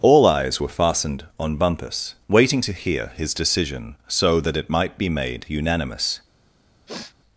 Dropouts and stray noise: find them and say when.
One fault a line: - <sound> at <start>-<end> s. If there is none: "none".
- sniff at 6.9-7.2 s